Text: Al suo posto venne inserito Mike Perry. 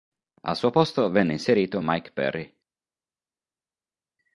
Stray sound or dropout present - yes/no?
no